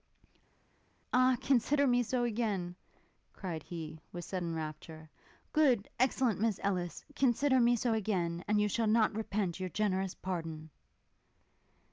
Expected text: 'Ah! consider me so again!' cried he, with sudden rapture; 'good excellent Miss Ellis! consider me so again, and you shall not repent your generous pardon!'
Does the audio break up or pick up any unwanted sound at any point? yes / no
no